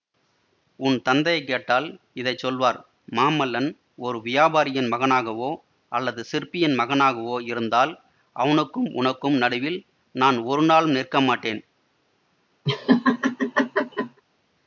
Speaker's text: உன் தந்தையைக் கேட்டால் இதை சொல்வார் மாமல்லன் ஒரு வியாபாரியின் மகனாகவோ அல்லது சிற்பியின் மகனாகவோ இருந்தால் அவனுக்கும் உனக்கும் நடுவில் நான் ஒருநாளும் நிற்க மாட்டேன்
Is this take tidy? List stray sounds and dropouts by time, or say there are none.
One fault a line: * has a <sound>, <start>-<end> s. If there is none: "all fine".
* has a laugh, 12.7-14.2 s